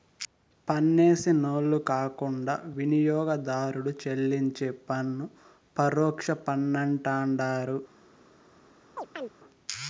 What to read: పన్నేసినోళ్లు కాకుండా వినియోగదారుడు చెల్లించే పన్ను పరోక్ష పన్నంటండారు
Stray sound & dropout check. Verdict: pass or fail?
fail